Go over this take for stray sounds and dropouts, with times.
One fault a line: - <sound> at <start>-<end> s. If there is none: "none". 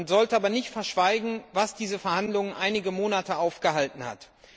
none